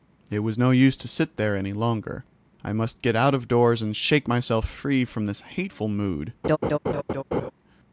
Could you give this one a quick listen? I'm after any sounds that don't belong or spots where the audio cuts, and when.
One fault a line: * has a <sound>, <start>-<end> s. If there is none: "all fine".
* has a laugh, 6.4-7.5 s